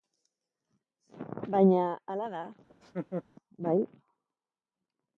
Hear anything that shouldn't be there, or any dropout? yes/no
yes